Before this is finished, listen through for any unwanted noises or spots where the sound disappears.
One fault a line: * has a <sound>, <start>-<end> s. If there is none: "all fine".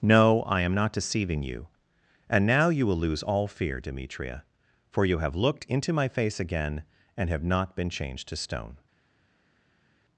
all fine